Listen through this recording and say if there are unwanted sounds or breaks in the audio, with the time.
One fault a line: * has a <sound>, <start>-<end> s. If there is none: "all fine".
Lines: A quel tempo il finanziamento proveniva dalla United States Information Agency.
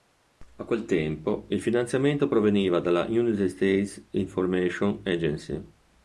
all fine